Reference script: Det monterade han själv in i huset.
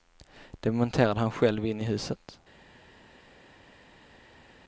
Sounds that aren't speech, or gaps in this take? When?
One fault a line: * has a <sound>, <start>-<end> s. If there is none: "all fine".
all fine